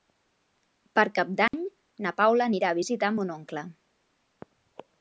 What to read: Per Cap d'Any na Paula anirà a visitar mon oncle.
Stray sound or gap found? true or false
true